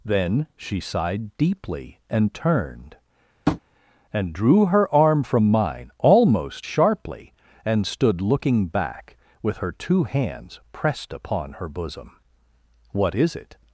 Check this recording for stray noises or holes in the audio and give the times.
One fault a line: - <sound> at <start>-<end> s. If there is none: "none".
- tap at 3.5-3.6 s